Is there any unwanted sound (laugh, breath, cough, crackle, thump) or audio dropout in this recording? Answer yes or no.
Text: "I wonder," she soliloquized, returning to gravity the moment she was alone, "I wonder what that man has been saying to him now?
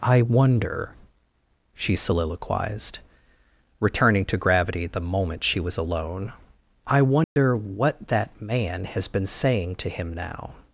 yes